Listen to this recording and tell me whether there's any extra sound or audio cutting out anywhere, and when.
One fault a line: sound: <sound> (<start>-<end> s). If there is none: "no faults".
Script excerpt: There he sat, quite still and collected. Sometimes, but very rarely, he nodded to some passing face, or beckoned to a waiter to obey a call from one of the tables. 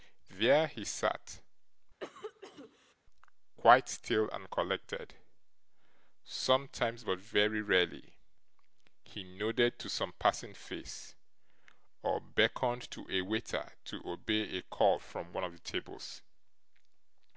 sound: cough (2.0-2.9 s)